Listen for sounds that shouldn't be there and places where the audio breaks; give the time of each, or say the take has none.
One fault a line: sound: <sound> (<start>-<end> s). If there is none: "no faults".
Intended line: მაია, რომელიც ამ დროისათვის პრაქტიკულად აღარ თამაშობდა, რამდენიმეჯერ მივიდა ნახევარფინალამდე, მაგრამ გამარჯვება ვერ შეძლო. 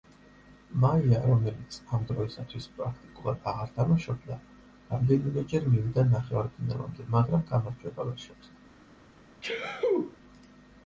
sound: sneeze (9.4-10.2 s)